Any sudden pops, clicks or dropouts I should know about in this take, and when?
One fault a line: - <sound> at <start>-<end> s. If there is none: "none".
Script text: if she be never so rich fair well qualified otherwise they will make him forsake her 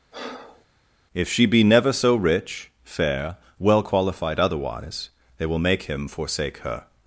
- breath at 0.1-0.7 s